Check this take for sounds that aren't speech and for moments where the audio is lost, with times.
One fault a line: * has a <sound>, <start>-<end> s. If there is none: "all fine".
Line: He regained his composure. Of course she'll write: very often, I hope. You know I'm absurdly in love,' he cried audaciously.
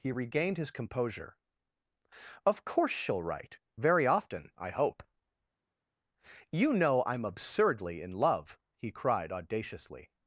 all fine